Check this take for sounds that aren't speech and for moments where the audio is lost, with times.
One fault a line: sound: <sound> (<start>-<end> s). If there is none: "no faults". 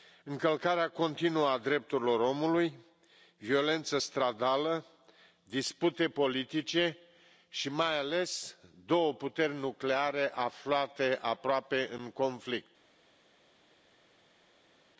no faults